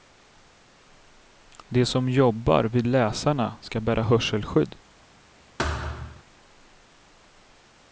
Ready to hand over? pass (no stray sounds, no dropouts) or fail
fail